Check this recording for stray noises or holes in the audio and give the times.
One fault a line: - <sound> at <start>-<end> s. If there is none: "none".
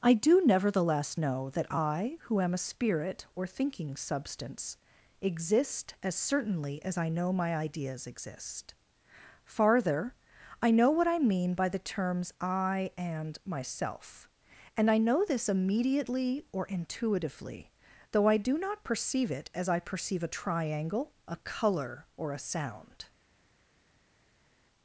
none